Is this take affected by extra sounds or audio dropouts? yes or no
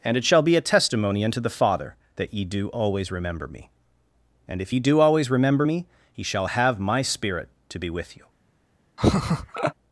yes